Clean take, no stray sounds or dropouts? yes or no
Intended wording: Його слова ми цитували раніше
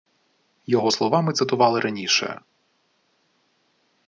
yes